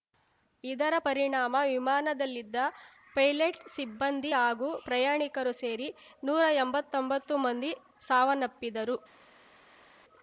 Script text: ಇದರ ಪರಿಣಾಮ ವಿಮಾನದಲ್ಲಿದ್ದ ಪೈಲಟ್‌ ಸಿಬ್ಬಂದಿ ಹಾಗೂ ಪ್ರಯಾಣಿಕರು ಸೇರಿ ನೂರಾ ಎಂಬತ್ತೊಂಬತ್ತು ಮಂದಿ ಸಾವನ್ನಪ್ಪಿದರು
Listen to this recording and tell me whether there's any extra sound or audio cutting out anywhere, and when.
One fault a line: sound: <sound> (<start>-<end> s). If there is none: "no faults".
no faults